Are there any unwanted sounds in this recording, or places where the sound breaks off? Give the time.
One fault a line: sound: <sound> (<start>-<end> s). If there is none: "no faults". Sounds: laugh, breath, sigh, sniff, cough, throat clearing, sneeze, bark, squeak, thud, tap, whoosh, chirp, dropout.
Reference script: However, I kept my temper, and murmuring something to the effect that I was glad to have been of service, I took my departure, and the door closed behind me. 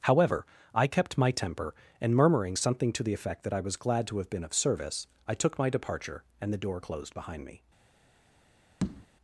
sound: tap (8.8-9.1 s)